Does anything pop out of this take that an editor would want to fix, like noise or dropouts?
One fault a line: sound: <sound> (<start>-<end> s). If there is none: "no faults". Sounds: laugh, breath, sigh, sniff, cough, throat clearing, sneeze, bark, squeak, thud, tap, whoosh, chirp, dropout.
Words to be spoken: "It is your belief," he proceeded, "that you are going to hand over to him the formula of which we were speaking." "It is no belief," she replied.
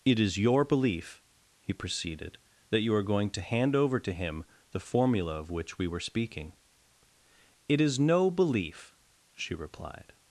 no faults